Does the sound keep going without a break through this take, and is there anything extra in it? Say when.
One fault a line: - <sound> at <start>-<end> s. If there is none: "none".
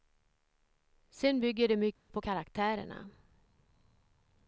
- dropout at 2.0-2.1 s